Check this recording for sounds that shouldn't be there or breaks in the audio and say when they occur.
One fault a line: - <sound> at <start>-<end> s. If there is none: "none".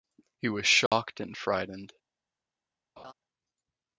- dropout at 0.9-0.9 s
- laugh at 3.0-3.1 s